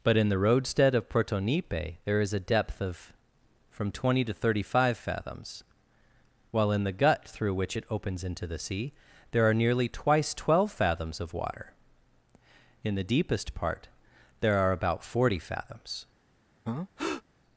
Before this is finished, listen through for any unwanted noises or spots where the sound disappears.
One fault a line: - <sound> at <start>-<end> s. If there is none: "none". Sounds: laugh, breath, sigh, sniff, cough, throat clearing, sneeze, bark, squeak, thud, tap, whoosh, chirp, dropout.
- breath at 16.7-17.2 s